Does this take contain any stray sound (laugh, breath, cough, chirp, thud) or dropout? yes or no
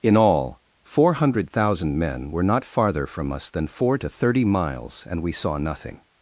no